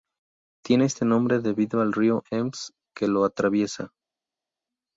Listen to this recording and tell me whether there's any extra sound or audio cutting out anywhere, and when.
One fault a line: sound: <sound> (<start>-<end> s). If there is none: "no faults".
no faults